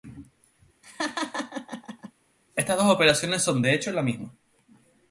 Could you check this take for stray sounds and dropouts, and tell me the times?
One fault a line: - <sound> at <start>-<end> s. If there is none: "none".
- laugh at 0.8-2.1 s